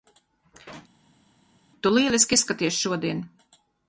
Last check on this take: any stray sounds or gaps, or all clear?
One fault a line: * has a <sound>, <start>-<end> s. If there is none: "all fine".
all fine